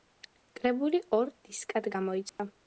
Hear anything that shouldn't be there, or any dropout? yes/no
yes